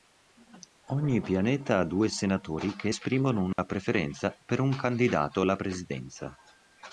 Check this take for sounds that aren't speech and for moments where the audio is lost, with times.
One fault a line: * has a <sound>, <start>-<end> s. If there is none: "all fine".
* has a dropout, 3.5-3.6 s